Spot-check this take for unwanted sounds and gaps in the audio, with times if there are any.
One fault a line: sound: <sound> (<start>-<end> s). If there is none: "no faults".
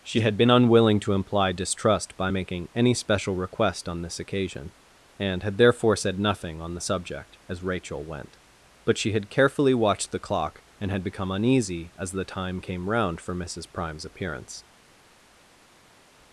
no faults